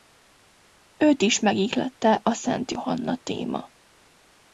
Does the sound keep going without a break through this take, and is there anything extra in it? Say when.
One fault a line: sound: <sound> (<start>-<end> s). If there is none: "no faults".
no faults